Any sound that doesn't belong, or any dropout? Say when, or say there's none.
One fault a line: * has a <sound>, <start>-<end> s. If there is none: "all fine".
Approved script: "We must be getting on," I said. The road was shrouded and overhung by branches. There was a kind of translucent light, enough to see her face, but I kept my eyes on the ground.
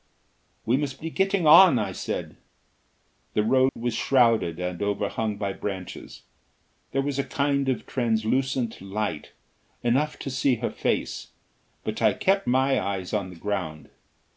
* has a dropout, 3.7-3.8 s